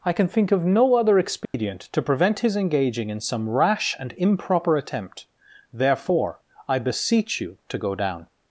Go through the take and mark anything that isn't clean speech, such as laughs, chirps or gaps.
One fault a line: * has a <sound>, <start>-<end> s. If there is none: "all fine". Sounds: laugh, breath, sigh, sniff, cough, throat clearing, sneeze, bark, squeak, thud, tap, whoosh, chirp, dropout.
* has a dropout, 1.4-1.5 s